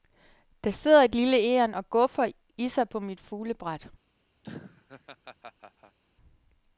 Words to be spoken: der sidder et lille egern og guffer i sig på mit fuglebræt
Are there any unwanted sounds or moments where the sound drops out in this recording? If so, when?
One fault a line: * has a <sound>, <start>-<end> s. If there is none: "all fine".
* has a laugh, 4.4-6.0 s